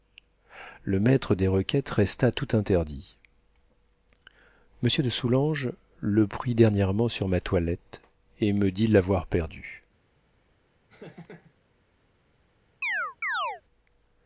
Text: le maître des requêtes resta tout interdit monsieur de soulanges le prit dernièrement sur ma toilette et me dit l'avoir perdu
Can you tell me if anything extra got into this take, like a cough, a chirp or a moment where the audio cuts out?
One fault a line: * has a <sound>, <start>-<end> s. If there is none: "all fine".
* has a laugh, 10.9-11.5 s
* has a chirp, 12.8-13.6 s